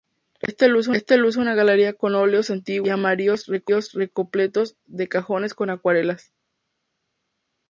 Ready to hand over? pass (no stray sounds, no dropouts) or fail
pass